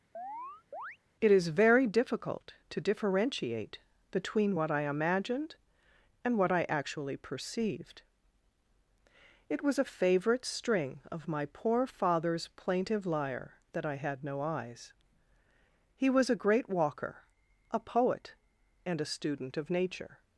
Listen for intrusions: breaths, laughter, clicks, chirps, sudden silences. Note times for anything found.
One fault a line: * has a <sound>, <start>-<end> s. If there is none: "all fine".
* has a chirp, 0.1-1.0 s